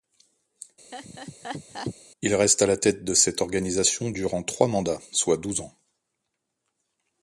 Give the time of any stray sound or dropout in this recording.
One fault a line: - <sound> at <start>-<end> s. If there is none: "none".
- laugh at 0.9-1.9 s